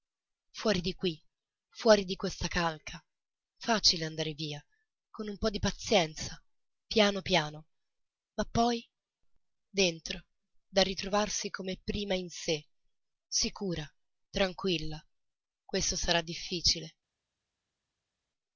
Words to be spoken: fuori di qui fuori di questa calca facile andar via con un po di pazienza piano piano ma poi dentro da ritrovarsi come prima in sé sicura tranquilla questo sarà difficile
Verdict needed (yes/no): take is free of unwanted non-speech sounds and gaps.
yes